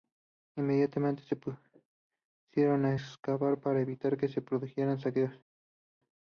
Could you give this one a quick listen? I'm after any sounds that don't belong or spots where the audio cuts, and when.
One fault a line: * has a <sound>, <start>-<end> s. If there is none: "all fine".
all fine